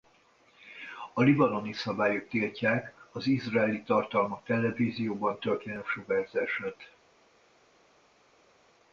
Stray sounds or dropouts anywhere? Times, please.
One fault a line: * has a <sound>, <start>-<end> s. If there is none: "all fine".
all fine